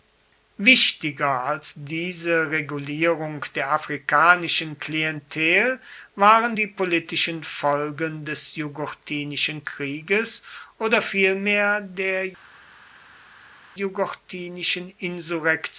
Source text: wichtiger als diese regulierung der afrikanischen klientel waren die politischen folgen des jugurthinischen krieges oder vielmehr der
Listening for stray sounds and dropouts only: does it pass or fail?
pass